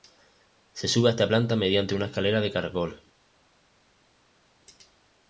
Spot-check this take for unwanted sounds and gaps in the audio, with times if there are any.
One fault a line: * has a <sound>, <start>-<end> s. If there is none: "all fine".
all fine